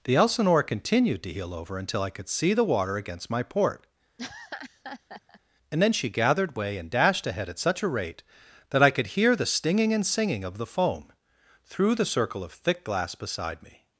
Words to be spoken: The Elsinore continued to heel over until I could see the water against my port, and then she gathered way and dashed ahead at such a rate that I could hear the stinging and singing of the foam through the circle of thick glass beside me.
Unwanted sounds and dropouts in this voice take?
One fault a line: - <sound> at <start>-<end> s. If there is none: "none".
- laugh at 4.2-5.4 s